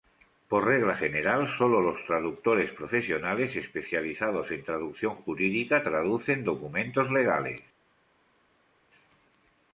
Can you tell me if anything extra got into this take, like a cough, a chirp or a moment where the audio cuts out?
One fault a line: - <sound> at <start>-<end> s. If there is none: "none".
none